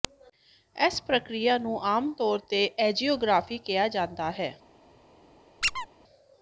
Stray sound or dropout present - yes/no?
yes